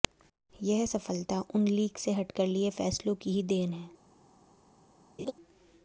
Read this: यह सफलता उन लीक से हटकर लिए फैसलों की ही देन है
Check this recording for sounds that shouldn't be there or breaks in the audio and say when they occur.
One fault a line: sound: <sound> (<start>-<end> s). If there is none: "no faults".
sound: laugh (5.2-5.3 s)